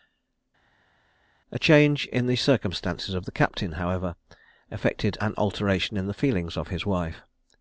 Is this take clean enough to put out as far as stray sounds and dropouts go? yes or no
yes